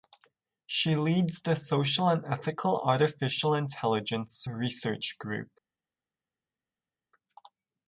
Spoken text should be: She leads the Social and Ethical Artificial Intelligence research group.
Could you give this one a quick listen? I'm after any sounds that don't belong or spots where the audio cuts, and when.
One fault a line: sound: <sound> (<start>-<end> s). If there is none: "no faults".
no faults